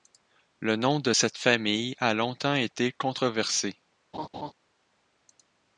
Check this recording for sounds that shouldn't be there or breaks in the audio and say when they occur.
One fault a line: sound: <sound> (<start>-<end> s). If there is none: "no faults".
sound: laugh (4.1-4.5 s)